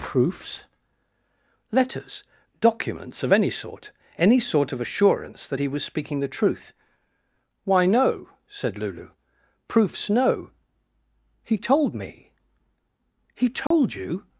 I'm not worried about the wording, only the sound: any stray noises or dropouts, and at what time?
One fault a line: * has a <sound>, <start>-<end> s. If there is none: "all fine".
* has a dropout, 13.7-13.7 s